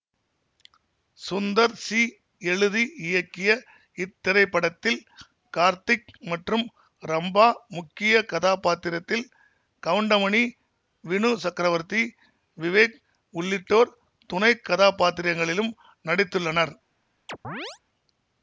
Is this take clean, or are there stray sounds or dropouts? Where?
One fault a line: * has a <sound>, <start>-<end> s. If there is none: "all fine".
* has a chirp, 17.3-17.8 s